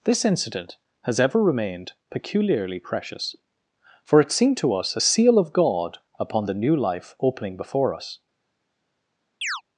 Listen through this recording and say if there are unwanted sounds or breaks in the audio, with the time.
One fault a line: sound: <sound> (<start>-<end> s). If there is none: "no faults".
sound: chirp (9.4-9.6 s)